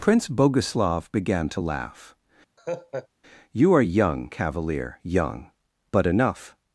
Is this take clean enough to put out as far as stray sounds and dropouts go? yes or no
no